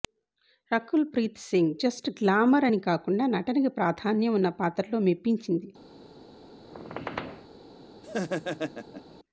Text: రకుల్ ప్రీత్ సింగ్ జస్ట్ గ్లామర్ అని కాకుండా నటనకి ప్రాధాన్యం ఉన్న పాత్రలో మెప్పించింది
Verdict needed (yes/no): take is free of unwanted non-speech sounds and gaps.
no